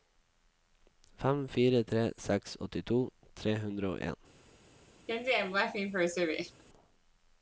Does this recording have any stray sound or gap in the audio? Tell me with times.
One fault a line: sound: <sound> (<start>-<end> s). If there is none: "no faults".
sound: laugh (5.1-6.6 s)